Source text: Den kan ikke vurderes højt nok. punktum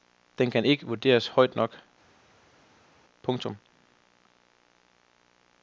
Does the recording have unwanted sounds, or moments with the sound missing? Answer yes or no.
no